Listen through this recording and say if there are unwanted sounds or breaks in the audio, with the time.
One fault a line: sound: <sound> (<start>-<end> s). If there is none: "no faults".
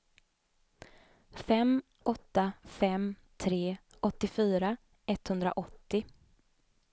no faults